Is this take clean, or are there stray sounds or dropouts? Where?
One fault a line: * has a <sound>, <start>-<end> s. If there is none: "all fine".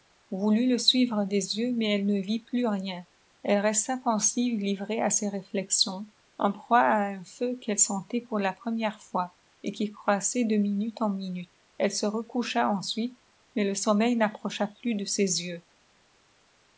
all fine